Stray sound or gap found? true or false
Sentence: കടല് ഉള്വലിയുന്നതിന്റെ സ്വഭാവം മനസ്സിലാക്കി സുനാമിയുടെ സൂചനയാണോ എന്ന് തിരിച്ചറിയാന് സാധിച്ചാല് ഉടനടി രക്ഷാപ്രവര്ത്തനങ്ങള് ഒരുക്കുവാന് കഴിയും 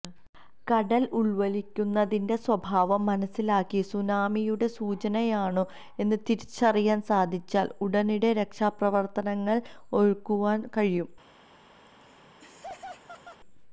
true